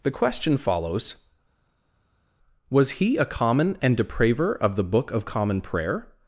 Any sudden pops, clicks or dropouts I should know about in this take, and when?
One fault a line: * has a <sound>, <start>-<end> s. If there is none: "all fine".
all fine